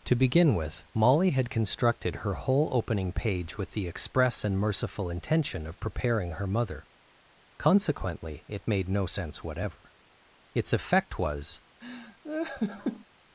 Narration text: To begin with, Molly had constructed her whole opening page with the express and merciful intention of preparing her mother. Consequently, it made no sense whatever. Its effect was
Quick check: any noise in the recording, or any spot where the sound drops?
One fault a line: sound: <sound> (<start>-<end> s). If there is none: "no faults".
sound: laugh (11.8-13.1 s)